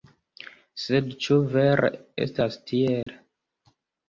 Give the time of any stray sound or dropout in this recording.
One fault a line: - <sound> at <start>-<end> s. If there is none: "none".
- dropout at 3.0-3.1 s